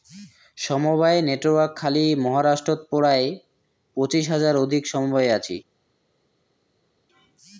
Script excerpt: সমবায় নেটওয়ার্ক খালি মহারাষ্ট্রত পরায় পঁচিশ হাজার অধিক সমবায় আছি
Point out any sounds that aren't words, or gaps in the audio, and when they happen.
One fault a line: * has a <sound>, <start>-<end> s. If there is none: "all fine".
all fine